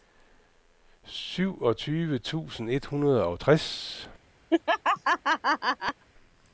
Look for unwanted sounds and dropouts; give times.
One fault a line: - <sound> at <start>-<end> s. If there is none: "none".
- laugh at 4.5-6.0 s